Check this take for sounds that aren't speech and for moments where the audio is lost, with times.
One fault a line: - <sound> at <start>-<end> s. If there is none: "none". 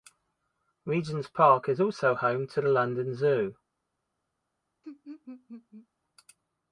- laugh at 4.8-5.9 s